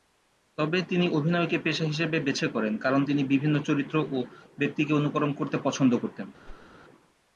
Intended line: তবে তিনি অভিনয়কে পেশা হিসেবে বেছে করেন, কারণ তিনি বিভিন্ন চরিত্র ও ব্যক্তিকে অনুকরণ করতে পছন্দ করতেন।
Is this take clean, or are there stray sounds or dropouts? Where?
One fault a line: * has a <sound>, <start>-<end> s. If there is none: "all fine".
* has a whoosh, 6.5-6.7 s